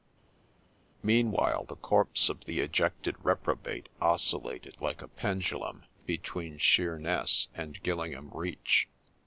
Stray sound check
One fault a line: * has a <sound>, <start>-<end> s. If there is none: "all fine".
all fine